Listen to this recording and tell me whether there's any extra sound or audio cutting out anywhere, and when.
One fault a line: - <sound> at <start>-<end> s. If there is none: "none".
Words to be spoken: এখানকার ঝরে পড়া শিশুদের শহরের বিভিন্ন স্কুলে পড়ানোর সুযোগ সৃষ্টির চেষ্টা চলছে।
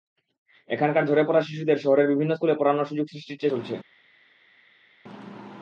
none